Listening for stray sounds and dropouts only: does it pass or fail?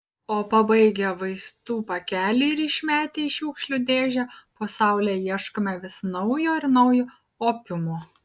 pass